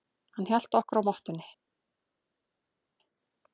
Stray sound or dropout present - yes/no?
no